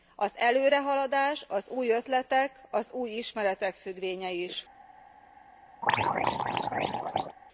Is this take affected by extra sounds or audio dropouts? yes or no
yes